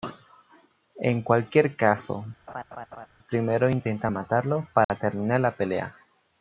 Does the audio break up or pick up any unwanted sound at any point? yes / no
yes